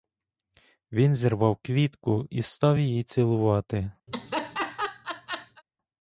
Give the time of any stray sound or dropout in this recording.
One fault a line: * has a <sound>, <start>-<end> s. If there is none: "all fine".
* has a laugh, 4.1-5.6 s